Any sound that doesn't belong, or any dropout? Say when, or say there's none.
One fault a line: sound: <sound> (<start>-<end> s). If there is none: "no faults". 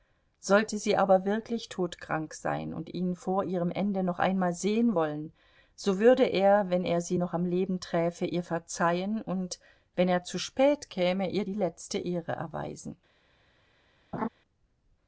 sound: laugh (14.1-14.3 s)